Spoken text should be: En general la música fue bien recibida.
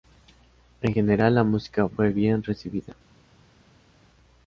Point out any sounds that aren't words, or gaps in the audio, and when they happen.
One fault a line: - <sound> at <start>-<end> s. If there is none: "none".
none